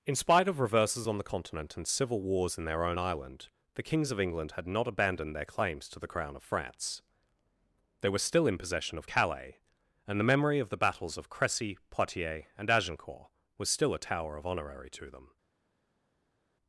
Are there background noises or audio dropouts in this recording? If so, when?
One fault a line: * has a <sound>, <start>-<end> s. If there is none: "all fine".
all fine